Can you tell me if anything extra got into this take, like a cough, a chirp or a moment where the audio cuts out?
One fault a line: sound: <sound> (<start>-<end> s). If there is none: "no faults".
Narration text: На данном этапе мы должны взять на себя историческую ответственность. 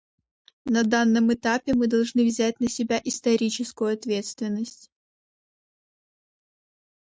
no faults